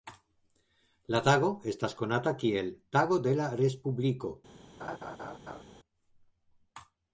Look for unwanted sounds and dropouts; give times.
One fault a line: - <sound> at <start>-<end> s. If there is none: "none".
- laugh at 4.8-5.6 s